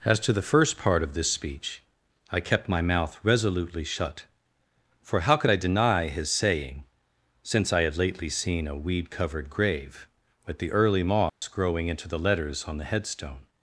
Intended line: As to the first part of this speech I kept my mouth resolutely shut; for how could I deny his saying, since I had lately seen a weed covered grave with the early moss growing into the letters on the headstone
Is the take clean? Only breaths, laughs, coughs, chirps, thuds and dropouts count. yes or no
no